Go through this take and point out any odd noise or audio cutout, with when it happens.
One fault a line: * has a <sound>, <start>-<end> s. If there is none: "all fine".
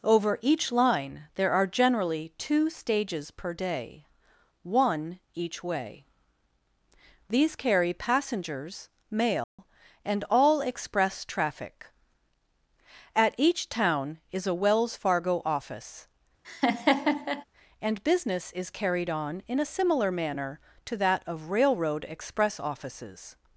* has a dropout, 9.4-9.6 s
* has a laugh, 16.4-17.4 s